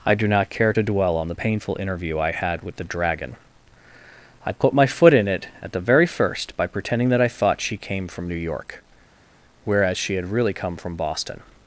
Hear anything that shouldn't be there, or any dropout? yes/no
no